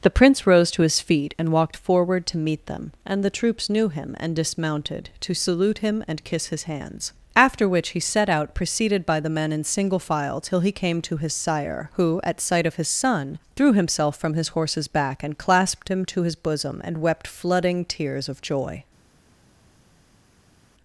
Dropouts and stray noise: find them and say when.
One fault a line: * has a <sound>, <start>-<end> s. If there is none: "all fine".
all fine